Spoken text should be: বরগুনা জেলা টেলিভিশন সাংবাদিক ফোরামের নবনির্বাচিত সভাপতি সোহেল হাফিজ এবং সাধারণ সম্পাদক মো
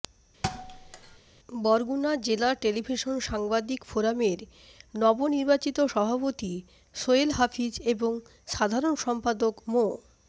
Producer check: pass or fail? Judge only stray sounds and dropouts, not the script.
fail